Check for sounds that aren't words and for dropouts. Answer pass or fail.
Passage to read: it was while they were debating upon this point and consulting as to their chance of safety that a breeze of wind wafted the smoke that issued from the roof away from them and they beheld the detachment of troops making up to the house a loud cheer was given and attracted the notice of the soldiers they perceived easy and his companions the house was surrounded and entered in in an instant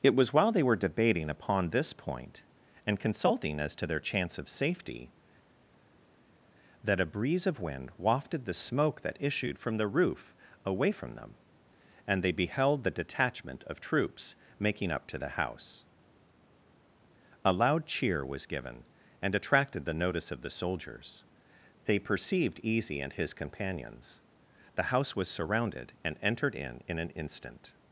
pass